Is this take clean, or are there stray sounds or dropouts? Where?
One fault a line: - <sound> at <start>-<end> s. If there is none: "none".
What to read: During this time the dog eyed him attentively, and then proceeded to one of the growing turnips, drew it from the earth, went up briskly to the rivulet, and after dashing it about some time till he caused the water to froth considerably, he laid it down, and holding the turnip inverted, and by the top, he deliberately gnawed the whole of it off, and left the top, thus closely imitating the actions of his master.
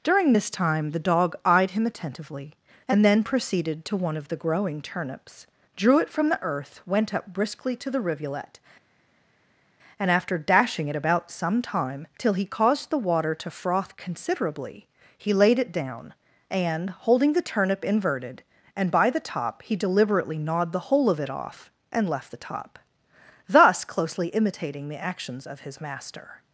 none